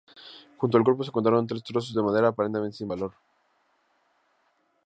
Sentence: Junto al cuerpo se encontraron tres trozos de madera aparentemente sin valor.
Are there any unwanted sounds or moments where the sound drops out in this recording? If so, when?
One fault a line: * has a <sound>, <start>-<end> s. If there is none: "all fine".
all fine